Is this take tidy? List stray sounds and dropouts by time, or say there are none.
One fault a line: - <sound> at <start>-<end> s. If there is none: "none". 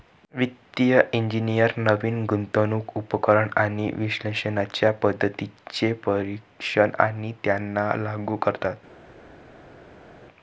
none